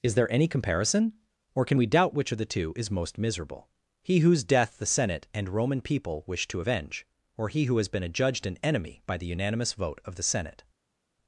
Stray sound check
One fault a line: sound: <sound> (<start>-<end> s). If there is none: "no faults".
no faults